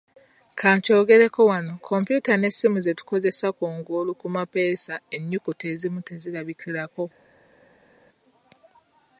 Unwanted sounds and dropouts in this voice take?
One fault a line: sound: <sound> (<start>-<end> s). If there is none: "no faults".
no faults